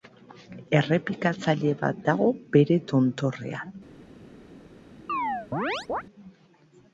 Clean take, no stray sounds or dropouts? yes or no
no